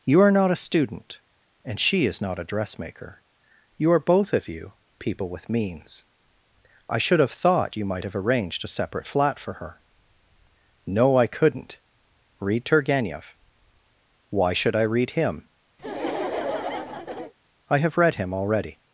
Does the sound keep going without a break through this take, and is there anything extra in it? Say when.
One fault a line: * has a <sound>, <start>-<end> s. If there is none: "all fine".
* has a laugh, 15.8-17.3 s